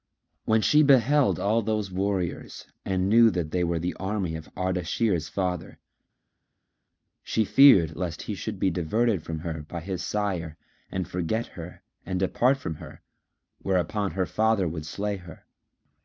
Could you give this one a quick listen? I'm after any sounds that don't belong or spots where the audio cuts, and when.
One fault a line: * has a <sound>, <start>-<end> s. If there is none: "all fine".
all fine